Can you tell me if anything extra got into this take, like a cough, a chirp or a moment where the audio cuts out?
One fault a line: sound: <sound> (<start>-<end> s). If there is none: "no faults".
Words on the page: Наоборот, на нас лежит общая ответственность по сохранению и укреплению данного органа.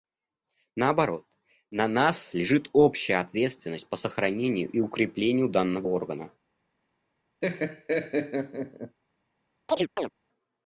sound: laugh (7.4-9.0 s)
sound: chirp (9.7-10.1 s)